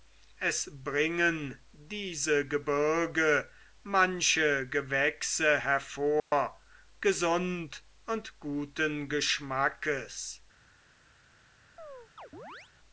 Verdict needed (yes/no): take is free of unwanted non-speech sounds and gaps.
no